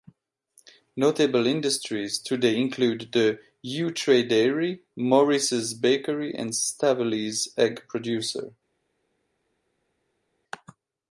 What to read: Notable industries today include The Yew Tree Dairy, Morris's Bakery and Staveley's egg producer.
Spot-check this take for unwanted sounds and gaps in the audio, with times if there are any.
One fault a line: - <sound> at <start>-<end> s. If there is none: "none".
none